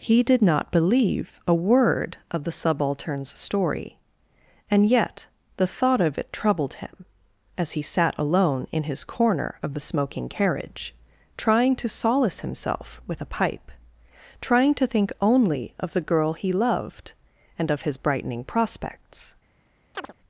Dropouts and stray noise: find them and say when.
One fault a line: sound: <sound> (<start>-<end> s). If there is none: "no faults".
sound: chirp (19.9-20.1 s)